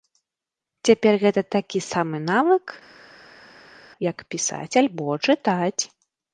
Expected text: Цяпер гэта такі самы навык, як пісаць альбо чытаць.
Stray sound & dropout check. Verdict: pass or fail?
pass